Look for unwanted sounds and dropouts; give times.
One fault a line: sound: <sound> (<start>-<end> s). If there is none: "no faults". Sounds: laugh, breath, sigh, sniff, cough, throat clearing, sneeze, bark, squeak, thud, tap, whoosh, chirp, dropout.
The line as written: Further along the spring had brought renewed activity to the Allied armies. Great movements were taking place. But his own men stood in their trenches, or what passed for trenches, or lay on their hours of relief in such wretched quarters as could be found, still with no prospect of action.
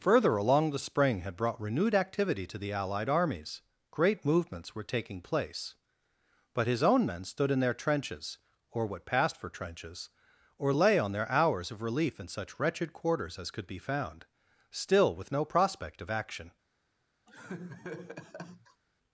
sound: laugh (17.3-18.8 s)